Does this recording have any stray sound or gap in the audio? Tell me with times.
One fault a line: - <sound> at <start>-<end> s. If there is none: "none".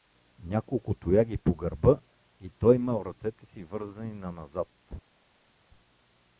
none